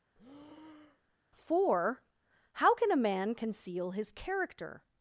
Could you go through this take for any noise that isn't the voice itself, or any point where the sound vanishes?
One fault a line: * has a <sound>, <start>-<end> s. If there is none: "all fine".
* has a breath, 0.1-1.2 s